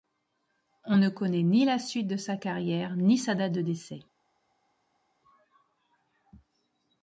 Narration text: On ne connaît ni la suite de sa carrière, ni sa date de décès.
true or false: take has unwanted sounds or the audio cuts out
false